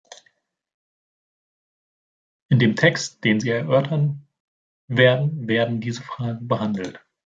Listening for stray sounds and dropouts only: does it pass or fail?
pass